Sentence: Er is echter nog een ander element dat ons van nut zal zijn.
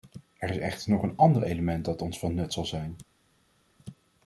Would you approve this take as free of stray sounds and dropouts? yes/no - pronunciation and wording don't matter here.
yes